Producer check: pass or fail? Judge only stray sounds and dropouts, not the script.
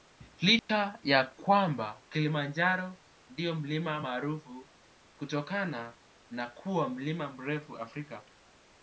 fail